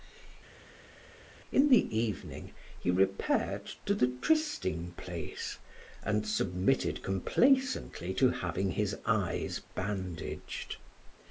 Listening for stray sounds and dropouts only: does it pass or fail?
pass